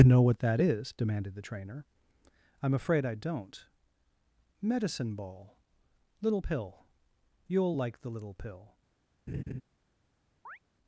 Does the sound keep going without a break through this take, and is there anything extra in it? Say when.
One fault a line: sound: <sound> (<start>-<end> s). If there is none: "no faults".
sound: laugh (9.3-9.6 s)
sound: chirp (10.5-10.6 s)